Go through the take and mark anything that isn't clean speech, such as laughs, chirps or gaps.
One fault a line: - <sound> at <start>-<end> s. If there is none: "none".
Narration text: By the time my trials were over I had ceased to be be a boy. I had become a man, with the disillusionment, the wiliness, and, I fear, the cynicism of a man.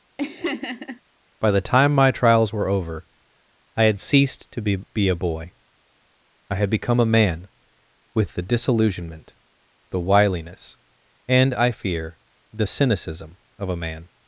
- laugh at 0.2-1.0 s